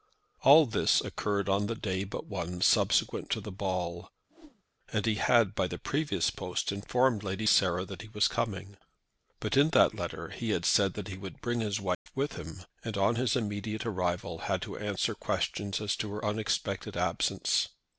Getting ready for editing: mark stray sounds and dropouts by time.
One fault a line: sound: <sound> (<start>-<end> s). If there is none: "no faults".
sound: whoosh (4.3-4.6 s)
sound: dropout (11.9-12.1 s)